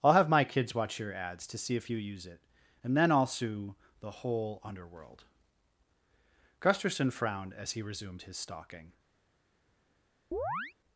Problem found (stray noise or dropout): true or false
true